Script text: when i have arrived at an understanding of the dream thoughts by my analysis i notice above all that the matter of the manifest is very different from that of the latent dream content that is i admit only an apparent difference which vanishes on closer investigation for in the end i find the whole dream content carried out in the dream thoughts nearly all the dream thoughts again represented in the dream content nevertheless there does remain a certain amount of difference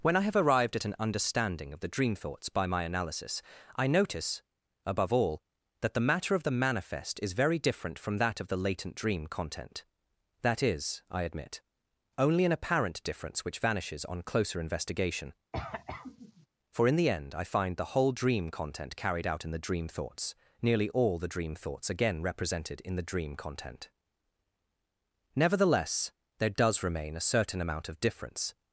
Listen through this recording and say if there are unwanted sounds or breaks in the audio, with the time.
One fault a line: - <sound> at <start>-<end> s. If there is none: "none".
- cough at 15.5-16.5 s